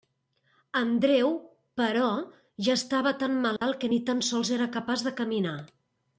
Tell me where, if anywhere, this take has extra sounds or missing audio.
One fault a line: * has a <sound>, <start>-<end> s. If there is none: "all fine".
* has a dropout, 3.6-3.6 s